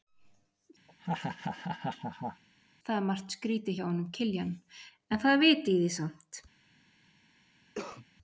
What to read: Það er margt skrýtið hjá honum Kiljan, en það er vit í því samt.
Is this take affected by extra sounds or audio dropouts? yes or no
yes